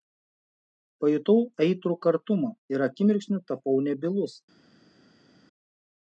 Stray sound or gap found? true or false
false